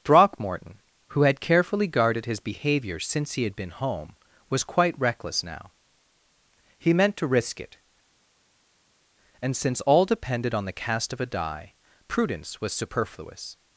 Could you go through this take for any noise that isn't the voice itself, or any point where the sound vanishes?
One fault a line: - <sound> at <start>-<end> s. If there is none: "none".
none